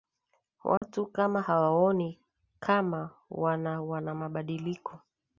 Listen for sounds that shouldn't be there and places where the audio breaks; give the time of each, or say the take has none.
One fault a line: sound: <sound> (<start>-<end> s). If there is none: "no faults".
sound: dropout (0.8-0.8 s)